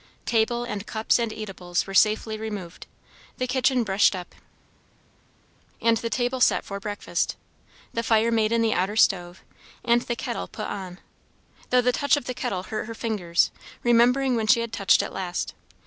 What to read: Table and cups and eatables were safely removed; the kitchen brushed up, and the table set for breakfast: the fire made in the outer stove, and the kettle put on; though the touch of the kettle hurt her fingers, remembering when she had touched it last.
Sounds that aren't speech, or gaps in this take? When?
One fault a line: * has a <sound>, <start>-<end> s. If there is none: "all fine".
all fine